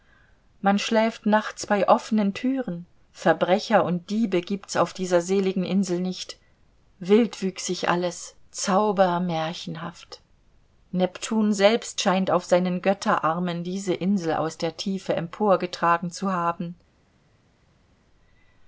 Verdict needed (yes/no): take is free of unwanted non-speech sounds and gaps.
yes